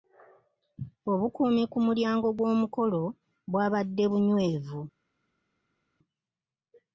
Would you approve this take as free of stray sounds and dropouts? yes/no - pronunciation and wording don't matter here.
yes